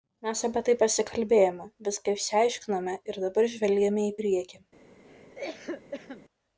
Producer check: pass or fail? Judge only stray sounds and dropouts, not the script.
fail